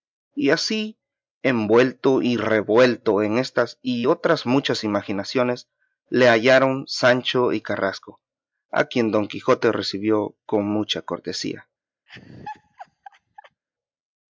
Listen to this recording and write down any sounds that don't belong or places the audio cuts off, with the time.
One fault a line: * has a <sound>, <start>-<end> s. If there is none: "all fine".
* has a laugh, 12.1-13.6 s